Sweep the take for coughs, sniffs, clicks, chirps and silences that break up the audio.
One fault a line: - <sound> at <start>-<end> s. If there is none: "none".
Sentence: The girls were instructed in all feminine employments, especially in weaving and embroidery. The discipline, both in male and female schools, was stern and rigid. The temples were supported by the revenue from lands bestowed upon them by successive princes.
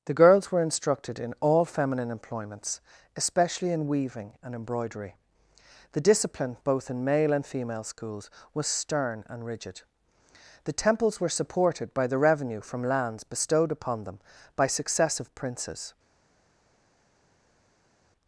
none